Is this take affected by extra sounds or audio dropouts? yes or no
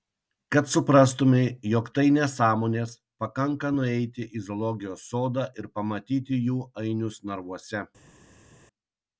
no